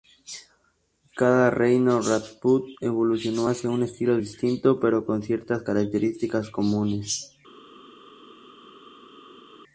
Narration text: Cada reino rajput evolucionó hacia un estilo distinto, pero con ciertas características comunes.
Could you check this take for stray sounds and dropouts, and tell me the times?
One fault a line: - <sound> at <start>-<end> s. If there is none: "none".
none